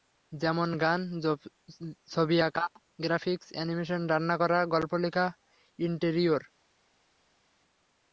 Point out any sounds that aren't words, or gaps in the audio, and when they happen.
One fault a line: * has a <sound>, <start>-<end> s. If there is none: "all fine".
all fine